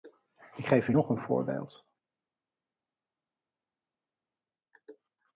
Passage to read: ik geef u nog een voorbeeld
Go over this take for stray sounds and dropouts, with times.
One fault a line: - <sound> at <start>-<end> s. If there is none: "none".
none